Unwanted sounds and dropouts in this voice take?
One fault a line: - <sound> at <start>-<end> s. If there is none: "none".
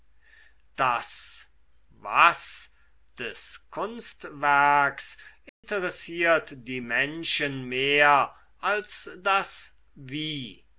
- dropout at 5.5-5.6 s